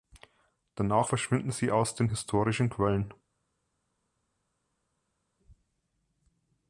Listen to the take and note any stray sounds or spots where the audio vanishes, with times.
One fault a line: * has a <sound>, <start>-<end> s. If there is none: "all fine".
all fine